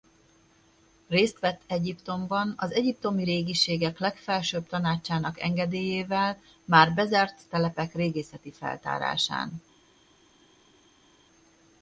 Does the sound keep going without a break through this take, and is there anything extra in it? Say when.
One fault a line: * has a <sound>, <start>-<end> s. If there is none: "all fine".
all fine